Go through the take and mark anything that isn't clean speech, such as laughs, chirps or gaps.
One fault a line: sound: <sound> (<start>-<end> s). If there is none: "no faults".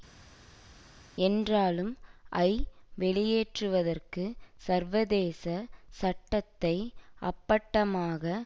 no faults